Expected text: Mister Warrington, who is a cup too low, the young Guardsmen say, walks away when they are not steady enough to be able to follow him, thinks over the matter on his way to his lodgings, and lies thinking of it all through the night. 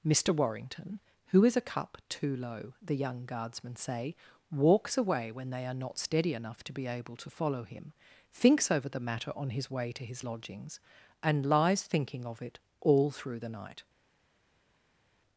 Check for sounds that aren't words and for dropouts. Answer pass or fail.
pass